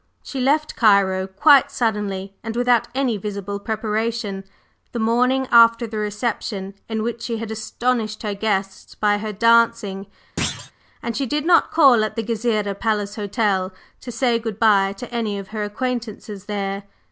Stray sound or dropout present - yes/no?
yes